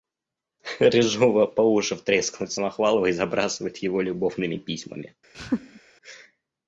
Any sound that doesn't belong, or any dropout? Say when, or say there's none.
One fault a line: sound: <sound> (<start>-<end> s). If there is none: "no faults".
sound: laugh (5.3-5.8 s)